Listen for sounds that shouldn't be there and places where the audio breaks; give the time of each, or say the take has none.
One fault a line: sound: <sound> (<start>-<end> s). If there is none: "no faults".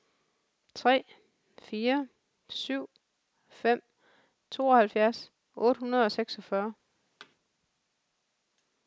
sound: thud (7.2-7.4 s)